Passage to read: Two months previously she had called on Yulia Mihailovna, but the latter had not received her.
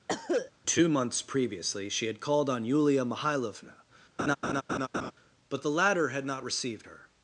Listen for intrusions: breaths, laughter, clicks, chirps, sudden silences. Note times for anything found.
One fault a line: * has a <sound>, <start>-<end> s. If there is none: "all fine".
* has a cough, 0.1-0.5 s
* has a laugh, 4.2-5.1 s